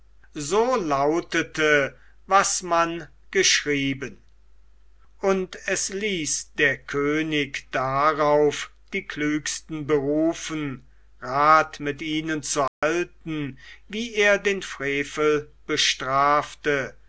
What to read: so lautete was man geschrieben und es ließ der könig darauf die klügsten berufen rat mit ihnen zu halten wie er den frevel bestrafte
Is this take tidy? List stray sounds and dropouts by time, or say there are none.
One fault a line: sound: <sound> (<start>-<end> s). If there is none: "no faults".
sound: dropout (12.7-12.8 s)